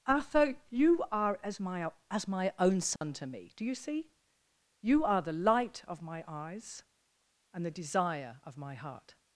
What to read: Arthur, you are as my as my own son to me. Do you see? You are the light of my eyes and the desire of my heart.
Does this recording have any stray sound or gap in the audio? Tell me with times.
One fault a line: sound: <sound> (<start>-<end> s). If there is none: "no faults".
sound: dropout (3.0-3.0 s)